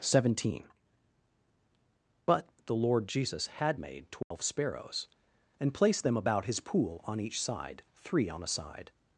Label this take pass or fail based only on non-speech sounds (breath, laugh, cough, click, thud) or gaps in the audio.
fail